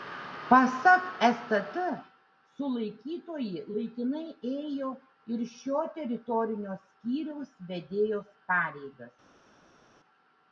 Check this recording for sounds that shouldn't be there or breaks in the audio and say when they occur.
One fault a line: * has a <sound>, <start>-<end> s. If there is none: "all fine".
all fine